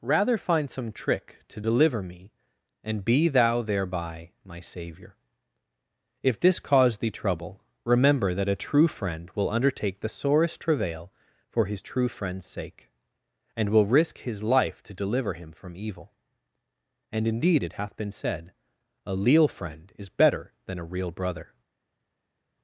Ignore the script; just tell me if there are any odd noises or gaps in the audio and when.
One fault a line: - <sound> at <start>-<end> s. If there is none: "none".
none